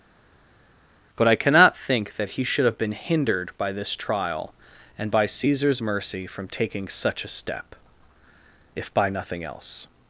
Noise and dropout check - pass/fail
pass